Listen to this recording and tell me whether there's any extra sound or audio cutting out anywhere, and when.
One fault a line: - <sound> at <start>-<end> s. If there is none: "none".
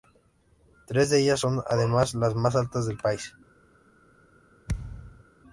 - thud at 4.7-5.2 s